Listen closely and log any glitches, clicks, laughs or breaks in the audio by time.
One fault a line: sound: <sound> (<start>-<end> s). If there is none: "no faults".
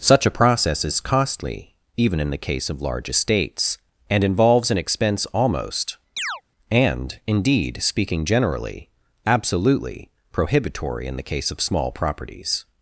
sound: chirp (6.2-6.4 s)